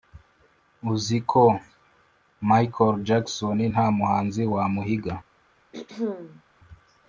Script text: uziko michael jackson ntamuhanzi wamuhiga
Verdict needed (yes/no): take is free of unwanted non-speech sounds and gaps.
no